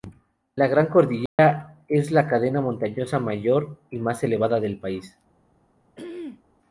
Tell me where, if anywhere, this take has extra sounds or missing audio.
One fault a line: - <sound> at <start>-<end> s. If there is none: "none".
- dropout at 1.3-1.4 s
- throat clearing at 6.0-6.4 s